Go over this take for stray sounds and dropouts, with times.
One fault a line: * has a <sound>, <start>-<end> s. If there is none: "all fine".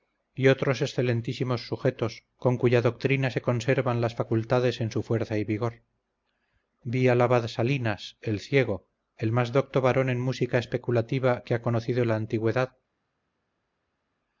all fine